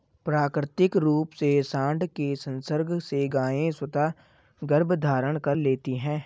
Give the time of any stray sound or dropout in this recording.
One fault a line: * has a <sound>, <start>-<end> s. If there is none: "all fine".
all fine